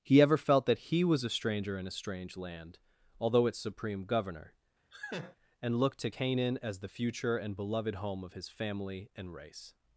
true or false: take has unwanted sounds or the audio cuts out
true